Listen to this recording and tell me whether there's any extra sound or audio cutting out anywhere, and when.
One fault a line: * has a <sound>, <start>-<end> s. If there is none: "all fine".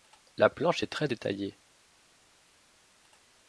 all fine